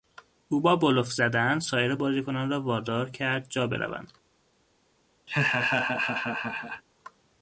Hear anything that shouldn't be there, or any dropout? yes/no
yes